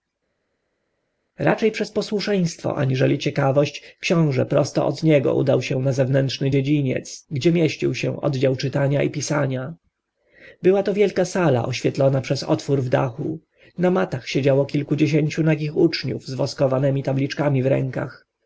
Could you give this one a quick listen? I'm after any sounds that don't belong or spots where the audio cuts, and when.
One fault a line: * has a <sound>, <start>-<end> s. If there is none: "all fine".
all fine